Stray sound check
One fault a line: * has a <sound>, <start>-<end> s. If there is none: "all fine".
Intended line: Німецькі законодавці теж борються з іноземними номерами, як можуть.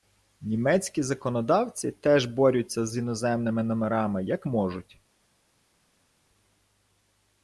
all fine